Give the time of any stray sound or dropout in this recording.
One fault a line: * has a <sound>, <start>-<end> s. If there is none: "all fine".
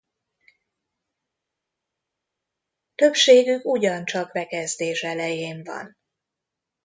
all fine